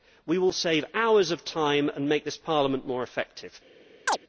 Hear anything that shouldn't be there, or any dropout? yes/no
yes